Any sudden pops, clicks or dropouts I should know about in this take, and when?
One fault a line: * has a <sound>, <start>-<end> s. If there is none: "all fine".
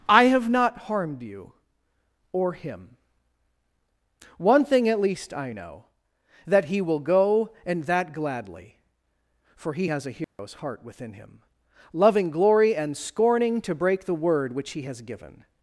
* has a dropout, 10.2-10.4 s